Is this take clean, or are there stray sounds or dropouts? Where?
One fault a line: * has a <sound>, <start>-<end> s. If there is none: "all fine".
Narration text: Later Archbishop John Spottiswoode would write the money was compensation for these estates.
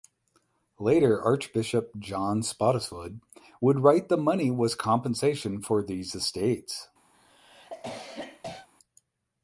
* has a cough, 7.1-8.7 s